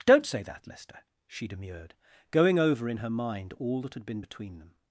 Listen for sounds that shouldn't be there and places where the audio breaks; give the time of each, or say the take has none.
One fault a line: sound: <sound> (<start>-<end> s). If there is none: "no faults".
no faults